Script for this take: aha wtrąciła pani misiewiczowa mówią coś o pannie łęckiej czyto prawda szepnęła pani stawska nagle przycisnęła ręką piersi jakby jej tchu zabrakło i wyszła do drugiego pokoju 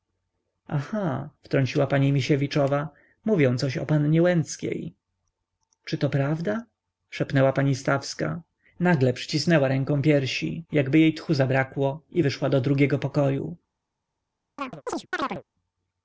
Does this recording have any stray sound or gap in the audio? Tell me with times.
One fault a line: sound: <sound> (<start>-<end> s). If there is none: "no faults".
sound: chirp (14.6-15.4 s)